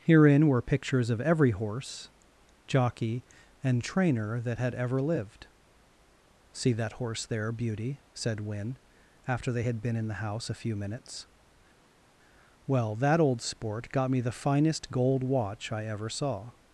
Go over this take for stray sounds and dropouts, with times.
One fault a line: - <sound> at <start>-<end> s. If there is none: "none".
none